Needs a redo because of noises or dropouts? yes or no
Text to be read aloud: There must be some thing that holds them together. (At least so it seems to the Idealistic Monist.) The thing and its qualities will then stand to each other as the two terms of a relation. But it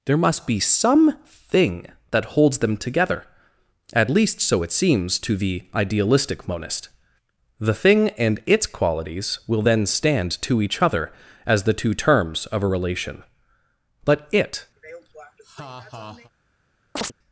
yes